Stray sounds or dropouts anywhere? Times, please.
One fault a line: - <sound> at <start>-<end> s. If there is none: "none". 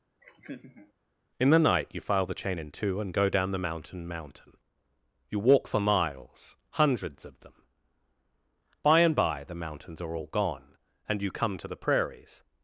- laugh at 0.2-0.9 s